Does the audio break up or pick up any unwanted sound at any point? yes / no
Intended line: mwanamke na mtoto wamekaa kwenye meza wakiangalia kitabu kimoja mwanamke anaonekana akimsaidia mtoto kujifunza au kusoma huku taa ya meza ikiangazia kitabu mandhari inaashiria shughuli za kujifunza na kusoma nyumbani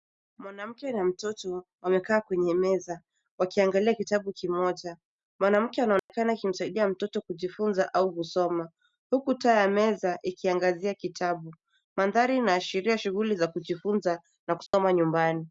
yes